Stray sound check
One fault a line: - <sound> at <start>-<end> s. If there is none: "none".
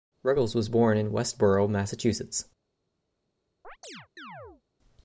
- chirp at 3.6-4.6 s